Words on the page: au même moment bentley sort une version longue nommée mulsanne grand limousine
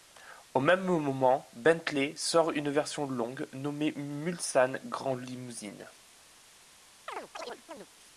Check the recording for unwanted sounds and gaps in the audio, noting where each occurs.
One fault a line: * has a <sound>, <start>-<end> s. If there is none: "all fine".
* has a chirp, 7.1-7.9 s